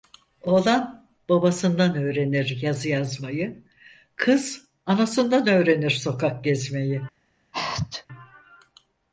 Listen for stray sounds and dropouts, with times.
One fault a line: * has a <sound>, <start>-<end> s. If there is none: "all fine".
* has a sneeze, 7.5-8.1 s